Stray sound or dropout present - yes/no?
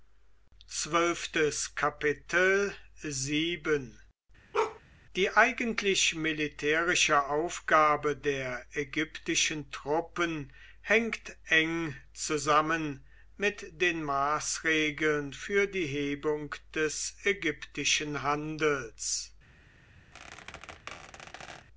yes